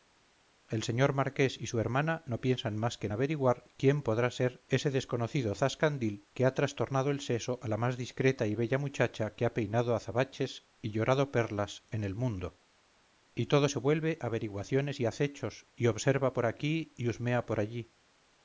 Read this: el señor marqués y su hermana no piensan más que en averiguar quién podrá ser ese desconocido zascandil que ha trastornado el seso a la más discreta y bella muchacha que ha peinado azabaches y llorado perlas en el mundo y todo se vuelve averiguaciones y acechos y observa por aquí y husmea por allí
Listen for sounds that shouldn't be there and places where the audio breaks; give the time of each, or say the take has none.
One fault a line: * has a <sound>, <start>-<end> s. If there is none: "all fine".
all fine